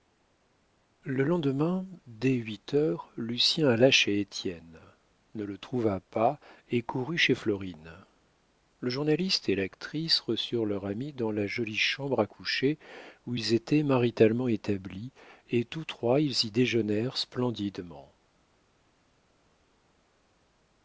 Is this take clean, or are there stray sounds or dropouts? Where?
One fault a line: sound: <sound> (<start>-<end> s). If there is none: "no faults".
no faults